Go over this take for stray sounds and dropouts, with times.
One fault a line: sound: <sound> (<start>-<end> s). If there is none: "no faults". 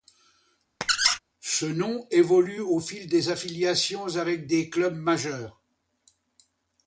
sound: squeak (0.8-1.2 s)